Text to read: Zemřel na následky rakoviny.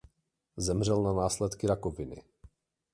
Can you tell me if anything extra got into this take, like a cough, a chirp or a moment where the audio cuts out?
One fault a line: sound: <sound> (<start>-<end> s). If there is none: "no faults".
no faults